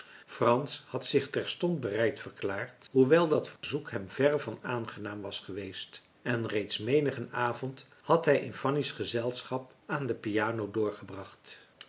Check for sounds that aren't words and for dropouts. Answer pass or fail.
fail